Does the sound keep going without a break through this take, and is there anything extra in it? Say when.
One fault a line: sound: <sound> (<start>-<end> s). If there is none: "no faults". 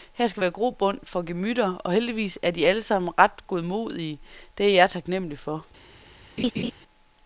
sound: laugh (6.4-6.7 s)